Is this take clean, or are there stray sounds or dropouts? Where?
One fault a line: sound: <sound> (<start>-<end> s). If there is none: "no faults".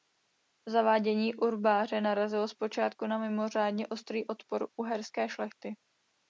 no faults